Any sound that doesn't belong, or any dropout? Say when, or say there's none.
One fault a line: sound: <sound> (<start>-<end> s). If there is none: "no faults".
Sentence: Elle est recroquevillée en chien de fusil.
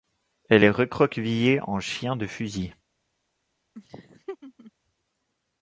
sound: laugh (3.7-4.7 s)